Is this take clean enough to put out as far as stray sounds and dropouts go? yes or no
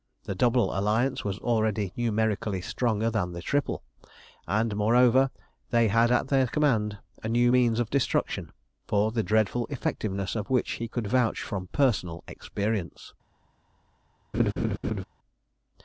no